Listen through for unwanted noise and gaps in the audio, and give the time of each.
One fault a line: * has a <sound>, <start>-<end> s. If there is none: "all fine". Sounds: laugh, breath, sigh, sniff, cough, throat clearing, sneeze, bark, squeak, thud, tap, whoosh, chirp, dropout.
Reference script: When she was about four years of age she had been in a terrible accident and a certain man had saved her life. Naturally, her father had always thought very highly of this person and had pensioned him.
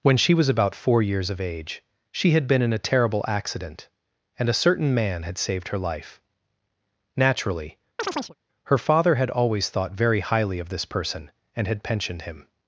* has a chirp, 8.0-8.3 s